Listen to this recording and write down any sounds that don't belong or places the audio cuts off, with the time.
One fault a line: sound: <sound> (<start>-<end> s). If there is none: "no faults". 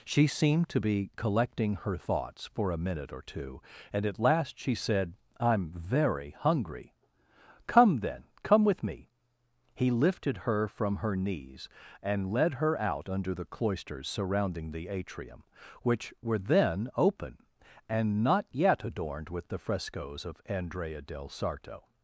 no faults